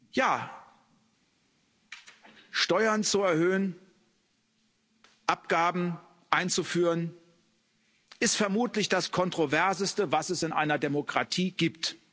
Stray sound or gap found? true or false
false